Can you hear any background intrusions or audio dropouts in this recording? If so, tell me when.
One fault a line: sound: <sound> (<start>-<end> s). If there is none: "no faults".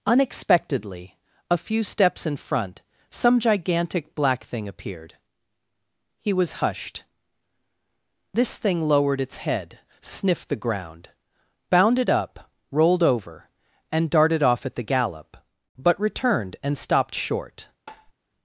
sound: tap (17.9-18.1 s)